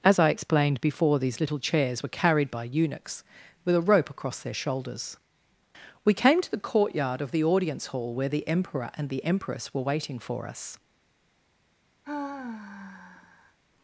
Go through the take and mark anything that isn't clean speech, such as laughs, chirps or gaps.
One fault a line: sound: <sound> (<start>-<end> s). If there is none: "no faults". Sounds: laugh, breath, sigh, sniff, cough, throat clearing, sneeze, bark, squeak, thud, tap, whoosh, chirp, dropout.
sound: sigh (12.0-13.6 s)